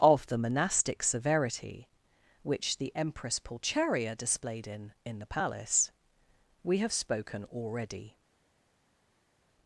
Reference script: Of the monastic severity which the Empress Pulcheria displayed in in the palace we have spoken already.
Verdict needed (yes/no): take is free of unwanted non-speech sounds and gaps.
yes